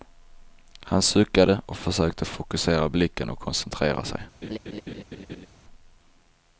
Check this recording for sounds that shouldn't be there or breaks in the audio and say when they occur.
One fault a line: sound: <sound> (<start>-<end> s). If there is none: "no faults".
sound: laugh (4.4-5.5 s)